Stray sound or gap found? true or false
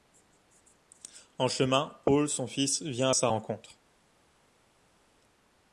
false